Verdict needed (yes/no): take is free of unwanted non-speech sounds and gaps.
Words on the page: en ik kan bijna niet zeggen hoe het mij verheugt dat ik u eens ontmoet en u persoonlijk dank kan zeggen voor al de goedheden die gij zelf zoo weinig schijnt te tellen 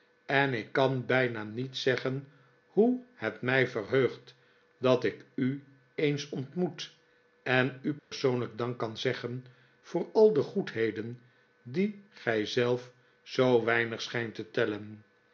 no